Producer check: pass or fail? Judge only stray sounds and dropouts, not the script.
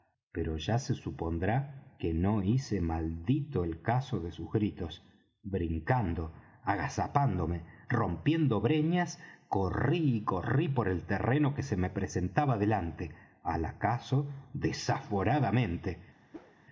fail